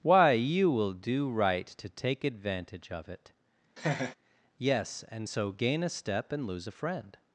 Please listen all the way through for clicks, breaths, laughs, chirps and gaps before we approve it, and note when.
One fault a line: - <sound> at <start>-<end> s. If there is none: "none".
- laugh at 3.8-4.2 s